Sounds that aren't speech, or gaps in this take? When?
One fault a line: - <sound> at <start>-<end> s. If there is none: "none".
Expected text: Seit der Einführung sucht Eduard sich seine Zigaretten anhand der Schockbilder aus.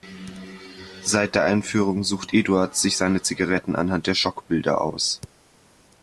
none